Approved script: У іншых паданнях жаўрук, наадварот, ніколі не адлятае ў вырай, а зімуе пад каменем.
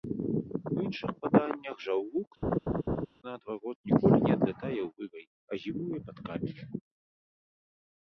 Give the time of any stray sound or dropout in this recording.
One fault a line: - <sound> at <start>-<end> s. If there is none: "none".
- laugh at 2.4-3.1 s